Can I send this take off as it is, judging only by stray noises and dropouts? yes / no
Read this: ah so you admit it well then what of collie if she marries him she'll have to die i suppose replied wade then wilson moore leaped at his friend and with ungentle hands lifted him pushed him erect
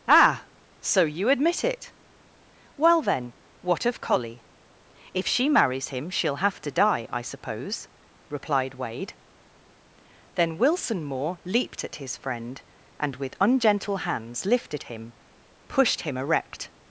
yes